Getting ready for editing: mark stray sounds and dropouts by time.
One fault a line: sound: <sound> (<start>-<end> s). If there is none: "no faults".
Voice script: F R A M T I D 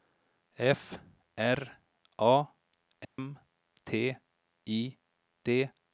sound: dropout (3.0-3.2 s)